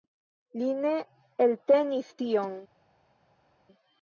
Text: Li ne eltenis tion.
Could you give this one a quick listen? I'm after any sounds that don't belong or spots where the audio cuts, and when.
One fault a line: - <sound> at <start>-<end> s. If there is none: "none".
none